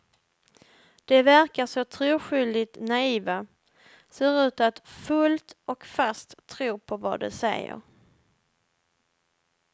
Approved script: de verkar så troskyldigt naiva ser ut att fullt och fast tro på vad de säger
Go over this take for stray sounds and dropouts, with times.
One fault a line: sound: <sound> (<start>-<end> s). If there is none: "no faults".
no faults